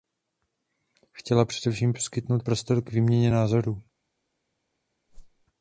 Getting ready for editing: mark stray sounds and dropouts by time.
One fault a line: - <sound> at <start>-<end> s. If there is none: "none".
- whoosh at 5.1-5.5 s